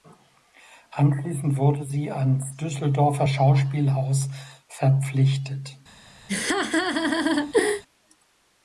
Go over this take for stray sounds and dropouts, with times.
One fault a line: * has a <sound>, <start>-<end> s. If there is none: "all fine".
* has a laugh, 6.3-7.8 s